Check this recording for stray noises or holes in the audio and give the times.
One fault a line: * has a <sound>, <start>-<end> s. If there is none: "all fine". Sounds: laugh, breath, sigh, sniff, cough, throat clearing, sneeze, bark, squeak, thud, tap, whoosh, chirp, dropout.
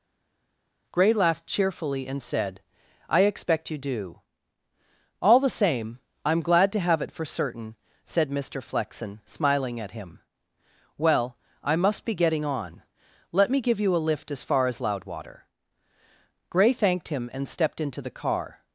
all fine